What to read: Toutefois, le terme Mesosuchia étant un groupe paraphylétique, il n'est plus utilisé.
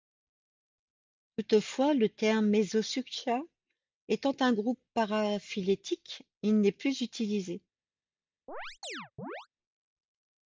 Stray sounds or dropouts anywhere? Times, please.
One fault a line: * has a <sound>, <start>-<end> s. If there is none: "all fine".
* has a chirp, 8.5-9.5 s